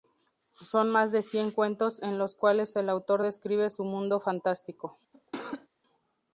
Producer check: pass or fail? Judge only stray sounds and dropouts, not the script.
fail